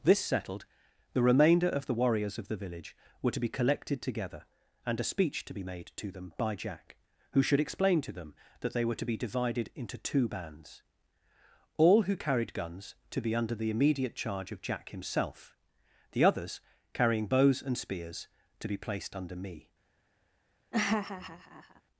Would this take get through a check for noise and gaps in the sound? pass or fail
fail